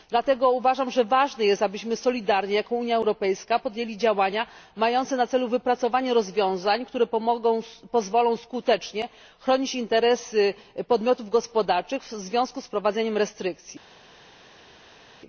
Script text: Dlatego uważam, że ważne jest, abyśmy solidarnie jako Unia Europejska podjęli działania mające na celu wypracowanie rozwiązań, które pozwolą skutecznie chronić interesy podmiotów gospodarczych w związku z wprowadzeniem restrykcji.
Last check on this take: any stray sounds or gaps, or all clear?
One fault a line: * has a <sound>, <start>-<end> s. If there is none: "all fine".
all fine